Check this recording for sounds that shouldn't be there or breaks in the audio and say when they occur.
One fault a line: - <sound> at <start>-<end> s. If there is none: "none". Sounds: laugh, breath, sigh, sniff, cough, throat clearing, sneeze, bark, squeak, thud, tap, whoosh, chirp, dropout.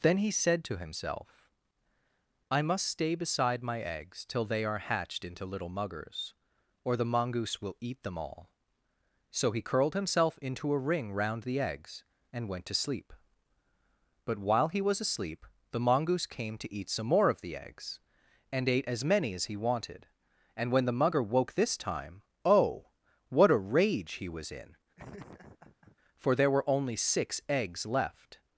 - laugh at 25.0-26.0 s